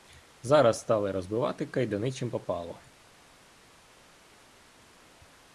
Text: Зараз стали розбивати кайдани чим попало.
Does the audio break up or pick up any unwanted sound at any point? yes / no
no